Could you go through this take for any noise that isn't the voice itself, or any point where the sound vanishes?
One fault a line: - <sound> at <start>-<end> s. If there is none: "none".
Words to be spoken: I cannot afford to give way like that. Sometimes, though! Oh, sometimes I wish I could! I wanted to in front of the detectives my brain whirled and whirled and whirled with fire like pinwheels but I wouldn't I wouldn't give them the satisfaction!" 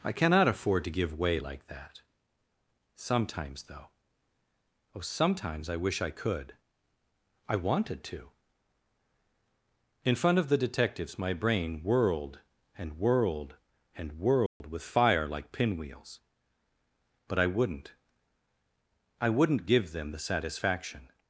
- dropout at 14.5-14.6 s